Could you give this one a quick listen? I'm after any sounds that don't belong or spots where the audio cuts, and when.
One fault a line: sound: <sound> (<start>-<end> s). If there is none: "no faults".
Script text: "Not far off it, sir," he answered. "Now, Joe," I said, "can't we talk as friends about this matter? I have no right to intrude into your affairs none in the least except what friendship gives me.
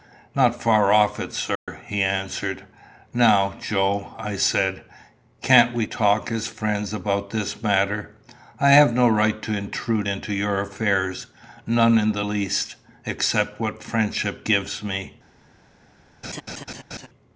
sound: dropout (1.6-1.7 s)
sound: laugh (16.2-17.1 s)